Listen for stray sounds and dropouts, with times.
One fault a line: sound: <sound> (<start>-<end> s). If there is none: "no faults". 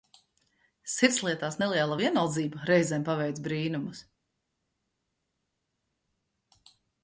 no faults